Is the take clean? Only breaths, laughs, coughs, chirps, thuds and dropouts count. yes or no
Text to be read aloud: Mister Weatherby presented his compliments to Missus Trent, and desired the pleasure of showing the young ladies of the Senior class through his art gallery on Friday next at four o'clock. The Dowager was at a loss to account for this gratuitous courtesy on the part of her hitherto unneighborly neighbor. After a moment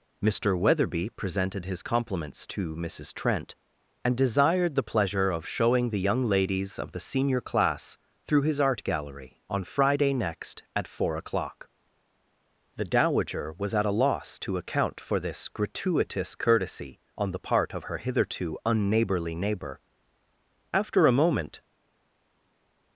yes